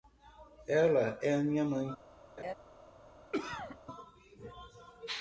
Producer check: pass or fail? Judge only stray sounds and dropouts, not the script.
fail